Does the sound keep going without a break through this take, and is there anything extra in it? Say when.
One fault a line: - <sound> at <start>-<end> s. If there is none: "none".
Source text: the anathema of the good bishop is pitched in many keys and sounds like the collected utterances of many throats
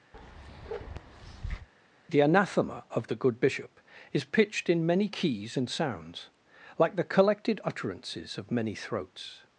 - bark at 0.1-1.7 s